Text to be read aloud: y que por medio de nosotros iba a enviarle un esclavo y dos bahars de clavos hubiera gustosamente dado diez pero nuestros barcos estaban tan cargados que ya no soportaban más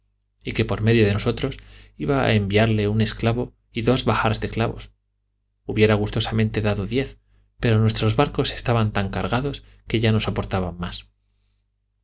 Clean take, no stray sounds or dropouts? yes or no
yes